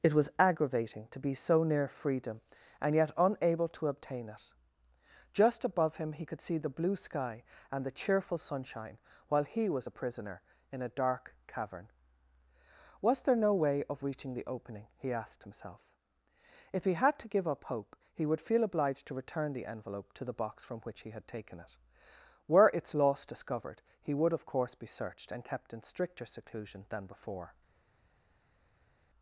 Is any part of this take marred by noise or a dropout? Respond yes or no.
no